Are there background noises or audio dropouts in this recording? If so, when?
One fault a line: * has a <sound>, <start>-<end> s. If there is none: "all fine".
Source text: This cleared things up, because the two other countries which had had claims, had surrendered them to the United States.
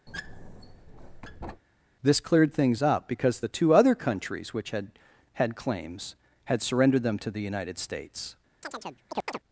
* has a squeak, 0.1-1.6 s
* has a chirp, 8.6-9.4 s